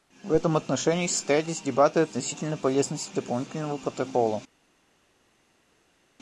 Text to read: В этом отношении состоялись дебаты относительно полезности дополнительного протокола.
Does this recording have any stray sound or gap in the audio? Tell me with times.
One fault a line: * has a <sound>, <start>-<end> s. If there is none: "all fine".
all fine